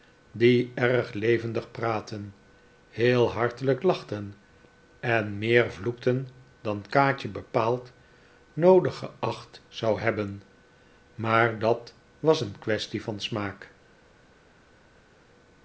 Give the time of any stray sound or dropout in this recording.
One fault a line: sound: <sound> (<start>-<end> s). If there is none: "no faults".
no faults